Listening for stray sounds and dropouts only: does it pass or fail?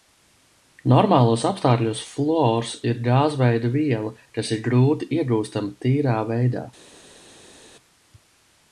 pass